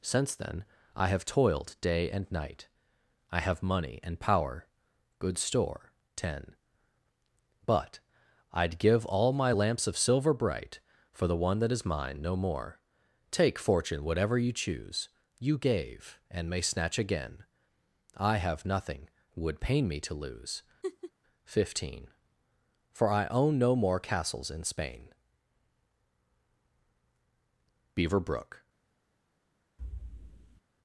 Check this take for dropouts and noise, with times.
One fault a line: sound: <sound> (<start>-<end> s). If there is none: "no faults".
sound: laugh (20.8-21.1 s)
sound: thud (29.8-30.6 s)